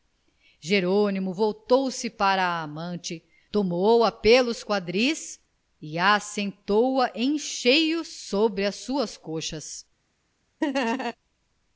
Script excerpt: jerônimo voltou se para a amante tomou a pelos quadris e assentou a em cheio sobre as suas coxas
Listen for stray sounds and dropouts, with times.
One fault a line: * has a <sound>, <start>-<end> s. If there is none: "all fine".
* has a laugh, 10.6-11.2 s